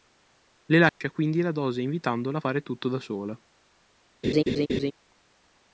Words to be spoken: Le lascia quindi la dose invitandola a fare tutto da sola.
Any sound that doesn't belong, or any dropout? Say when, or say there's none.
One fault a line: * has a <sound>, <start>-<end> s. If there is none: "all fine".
* has a dropout, 0.9-1.0 s
* has a laugh, 4.2-4.9 s